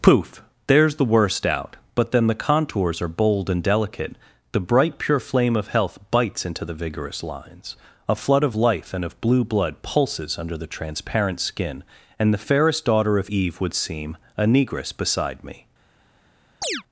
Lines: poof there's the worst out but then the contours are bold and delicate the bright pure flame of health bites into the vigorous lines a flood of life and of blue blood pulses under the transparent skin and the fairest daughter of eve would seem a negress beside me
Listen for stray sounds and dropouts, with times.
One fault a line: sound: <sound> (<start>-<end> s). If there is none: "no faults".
sound: chirp (16.6-16.8 s)